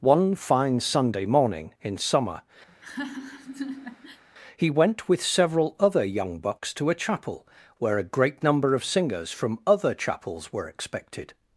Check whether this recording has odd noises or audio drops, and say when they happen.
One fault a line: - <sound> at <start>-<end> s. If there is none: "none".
- laugh at 2.7-4.2 s